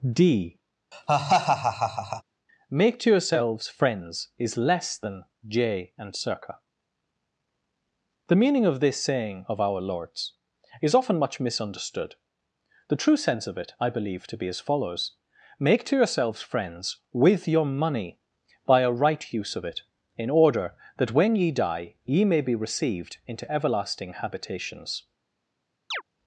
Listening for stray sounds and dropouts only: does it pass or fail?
fail